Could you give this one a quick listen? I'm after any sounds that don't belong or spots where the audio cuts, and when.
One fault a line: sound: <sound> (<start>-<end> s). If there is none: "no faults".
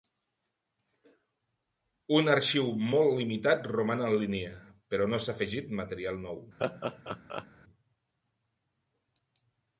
sound: laugh (6.6-7.5 s)